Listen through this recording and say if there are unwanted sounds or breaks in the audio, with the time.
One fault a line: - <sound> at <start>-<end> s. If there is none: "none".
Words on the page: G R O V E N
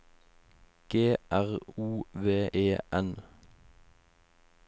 none